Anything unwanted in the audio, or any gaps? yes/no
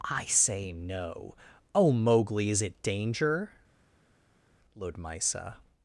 no